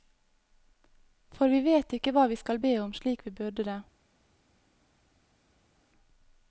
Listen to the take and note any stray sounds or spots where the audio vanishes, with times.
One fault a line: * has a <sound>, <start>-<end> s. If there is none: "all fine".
all fine